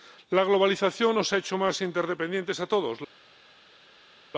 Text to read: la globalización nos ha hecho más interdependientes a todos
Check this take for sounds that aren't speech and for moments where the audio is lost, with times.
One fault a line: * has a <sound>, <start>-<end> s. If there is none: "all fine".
all fine